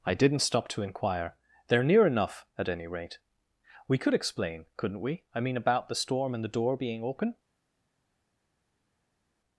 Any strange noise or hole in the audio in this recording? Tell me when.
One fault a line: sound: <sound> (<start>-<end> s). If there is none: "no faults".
no faults